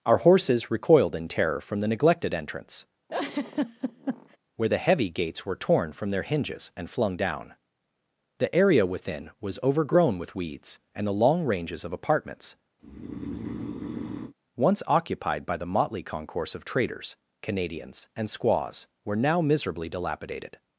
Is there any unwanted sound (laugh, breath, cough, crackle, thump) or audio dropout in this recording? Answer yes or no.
yes